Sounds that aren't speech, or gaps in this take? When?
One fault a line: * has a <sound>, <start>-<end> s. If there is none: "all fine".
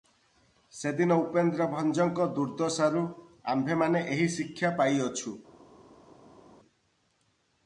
all fine